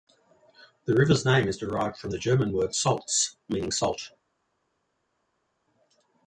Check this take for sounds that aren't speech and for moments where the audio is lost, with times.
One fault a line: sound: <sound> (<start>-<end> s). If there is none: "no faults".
no faults